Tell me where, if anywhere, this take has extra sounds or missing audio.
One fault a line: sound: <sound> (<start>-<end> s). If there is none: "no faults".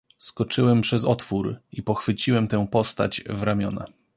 no faults